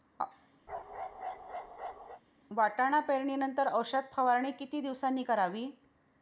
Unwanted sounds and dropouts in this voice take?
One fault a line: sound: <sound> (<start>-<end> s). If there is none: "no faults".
sound: bark (0.7-2.2 s)